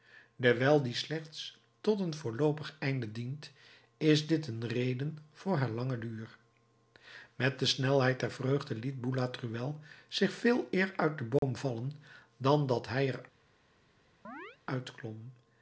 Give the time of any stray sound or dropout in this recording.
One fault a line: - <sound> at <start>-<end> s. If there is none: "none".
- dropout at 11.4-11.4 s
- chirp at 14.2-14.6 s